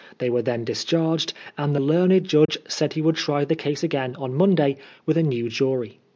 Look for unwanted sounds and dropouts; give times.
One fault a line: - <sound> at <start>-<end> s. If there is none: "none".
- dropout at 2.5-2.5 s